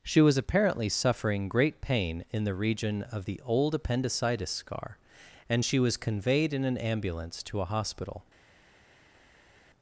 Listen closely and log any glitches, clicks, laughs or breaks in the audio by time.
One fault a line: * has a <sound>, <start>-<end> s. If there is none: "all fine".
all fine